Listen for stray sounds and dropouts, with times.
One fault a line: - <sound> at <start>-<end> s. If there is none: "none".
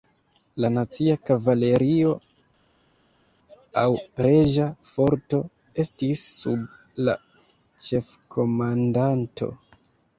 none